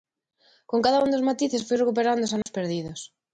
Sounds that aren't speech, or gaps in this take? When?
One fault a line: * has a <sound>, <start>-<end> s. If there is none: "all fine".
* has a dropout, 2.4-2.5 s